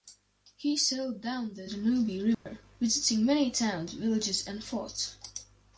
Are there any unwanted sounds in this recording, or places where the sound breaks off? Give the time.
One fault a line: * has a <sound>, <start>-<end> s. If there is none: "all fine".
* has a dropout, 2.3-2.5 s